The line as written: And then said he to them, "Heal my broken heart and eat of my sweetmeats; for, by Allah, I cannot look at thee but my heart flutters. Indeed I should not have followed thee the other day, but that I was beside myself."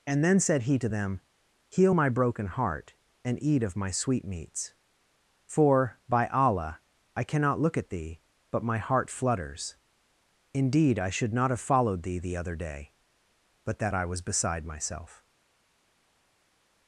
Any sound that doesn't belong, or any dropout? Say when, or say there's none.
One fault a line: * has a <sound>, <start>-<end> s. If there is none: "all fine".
all fine